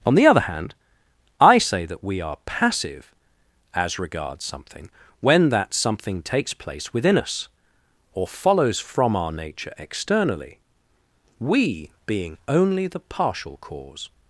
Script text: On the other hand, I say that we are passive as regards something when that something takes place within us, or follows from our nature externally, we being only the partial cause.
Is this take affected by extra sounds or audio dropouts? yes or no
no